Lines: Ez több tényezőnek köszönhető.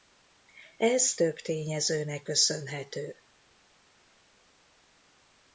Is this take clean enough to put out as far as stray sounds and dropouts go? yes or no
yes